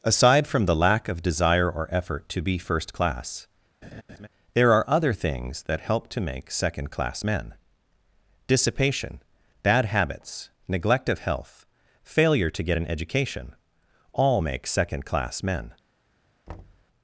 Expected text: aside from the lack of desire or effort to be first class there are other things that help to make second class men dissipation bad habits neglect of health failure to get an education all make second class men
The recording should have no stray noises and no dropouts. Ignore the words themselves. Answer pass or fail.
fail